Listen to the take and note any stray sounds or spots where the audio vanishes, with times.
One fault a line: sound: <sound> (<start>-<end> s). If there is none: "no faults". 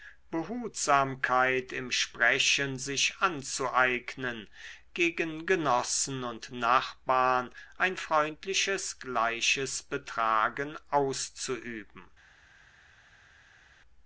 no faults